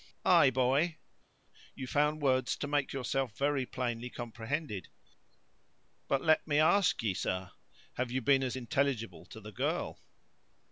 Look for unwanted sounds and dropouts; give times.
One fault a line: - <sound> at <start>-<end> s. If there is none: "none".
none